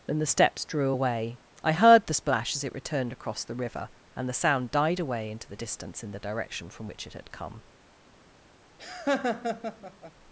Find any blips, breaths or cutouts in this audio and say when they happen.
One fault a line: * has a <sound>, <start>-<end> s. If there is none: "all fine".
* has a laugh, 8.8-10.1 s